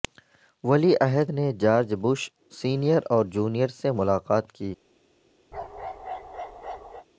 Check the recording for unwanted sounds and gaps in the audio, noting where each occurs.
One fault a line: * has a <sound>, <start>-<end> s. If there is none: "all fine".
* has a bark, 5.5-7.1 s